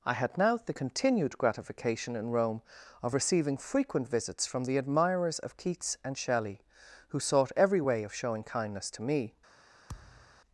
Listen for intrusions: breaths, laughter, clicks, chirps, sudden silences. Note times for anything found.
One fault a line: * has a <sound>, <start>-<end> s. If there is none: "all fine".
* has a thud, 9.9-10.4 s